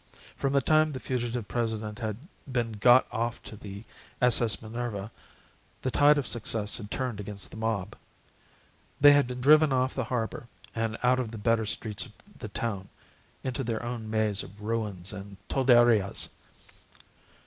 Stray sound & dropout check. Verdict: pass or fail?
pass